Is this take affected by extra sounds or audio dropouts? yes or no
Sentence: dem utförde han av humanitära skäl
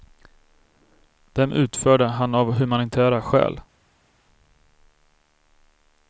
no